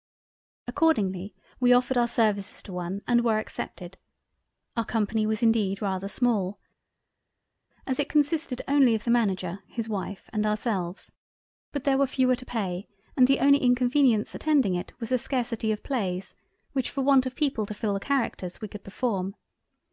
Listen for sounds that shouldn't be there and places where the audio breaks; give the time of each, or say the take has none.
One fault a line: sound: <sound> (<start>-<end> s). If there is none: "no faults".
no faults